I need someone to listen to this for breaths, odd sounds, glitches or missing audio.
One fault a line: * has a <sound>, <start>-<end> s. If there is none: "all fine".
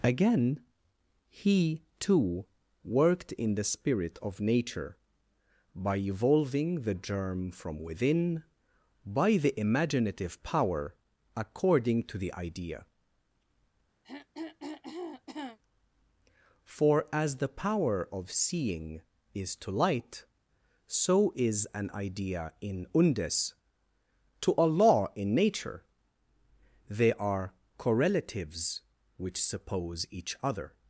* has a throat clearing, 14.0-15.6 s